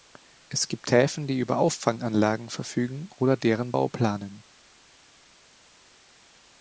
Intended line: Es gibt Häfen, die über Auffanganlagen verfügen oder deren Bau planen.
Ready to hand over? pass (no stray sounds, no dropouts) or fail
pass